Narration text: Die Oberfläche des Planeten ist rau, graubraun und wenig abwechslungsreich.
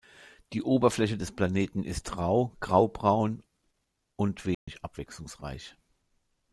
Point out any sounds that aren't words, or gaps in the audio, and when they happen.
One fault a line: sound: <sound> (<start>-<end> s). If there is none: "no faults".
sound: dropout (4.5-4.7 s)